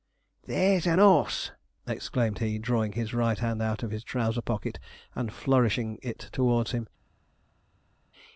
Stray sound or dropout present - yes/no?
no